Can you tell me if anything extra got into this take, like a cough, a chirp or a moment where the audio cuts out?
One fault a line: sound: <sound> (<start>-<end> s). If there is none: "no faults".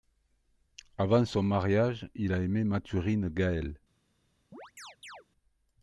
sound: chirp (4.5-5.3 s)